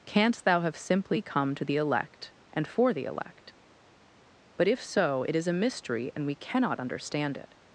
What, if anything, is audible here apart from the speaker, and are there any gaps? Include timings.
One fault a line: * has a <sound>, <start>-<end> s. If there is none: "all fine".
all fine